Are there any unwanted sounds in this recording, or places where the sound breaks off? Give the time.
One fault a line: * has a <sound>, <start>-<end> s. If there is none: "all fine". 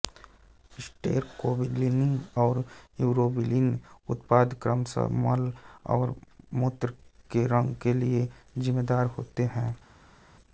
all fine